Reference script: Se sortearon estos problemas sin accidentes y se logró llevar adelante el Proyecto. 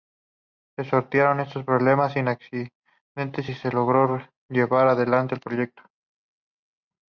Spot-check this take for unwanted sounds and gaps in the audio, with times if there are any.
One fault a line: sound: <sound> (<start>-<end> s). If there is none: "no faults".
no faults